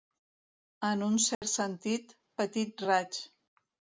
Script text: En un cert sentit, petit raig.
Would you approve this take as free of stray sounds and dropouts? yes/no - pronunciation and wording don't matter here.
no